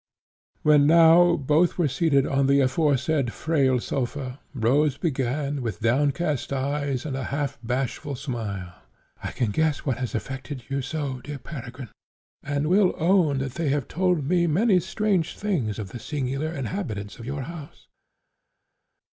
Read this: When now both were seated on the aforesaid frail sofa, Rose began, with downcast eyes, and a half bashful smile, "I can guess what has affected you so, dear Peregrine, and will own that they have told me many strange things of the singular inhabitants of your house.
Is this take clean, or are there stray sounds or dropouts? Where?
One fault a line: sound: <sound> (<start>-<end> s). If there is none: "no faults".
no faults